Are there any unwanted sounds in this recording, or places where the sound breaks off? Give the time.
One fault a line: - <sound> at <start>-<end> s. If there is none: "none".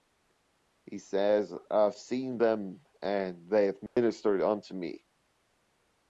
- dropout at 3.9-4.0 s